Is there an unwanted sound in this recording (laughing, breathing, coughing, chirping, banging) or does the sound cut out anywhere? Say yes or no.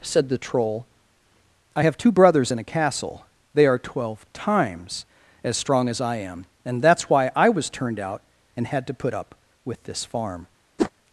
yes